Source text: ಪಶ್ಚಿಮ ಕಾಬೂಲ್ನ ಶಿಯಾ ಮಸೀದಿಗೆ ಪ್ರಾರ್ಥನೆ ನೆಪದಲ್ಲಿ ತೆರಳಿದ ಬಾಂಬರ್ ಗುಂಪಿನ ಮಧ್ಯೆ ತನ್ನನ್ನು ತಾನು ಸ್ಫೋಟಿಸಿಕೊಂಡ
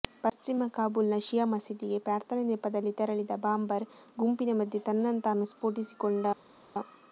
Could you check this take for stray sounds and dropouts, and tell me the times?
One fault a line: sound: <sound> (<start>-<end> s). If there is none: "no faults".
no faults